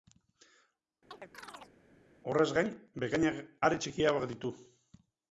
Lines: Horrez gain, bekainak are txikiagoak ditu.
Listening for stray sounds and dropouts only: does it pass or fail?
fail